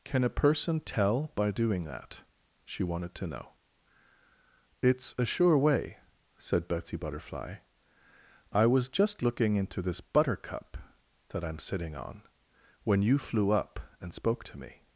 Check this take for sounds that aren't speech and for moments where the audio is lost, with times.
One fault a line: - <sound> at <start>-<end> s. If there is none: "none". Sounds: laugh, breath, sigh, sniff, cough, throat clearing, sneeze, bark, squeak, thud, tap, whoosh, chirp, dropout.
none